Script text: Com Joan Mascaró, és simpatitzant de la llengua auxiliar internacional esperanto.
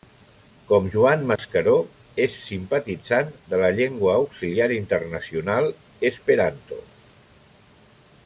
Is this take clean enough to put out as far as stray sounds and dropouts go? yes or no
no